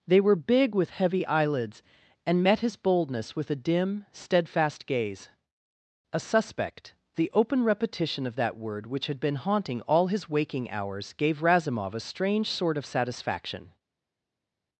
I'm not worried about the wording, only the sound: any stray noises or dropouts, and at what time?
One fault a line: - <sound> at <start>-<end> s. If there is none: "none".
none